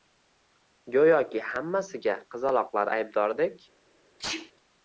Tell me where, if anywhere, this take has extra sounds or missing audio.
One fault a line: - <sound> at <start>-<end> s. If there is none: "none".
- sneeze at 4.2-4.5 s